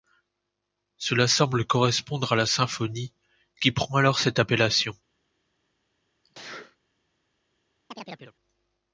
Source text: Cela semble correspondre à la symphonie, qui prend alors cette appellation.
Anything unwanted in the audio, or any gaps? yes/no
yes